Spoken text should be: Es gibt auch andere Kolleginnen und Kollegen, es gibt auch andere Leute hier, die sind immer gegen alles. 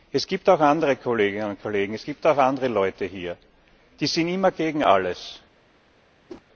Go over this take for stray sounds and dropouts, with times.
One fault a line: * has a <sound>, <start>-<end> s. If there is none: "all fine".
* has a whoosh, 6.3-6.4 s